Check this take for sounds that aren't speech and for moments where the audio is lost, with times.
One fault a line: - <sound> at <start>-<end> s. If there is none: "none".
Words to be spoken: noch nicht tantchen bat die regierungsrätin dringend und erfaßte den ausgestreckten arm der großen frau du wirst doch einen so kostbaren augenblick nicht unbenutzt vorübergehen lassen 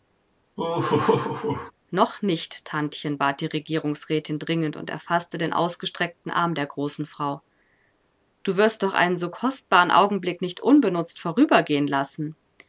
- laugh at 0.6-1.7 s